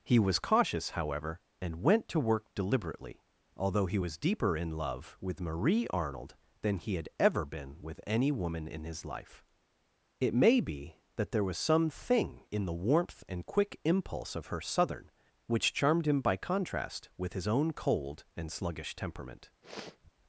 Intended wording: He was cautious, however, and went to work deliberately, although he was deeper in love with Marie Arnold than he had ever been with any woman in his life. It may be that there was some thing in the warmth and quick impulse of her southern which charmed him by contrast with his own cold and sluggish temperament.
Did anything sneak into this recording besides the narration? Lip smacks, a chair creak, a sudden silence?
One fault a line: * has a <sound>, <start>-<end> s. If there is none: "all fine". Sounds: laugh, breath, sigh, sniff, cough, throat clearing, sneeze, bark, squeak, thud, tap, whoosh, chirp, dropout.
* has a sniff, 19.6-20.1 s